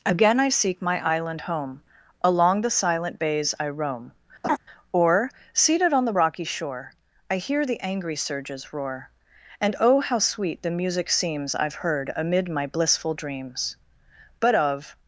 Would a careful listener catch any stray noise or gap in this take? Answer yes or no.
yes